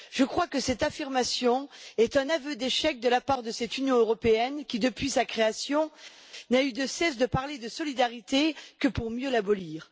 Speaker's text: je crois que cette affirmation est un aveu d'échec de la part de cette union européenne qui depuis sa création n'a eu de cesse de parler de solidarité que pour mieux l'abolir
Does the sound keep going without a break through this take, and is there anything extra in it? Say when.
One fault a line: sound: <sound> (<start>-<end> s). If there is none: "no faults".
no faults